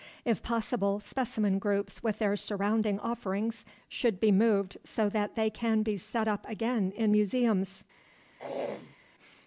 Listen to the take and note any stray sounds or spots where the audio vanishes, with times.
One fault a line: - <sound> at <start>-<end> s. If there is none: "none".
- throat clearing at 8.4-9.0 s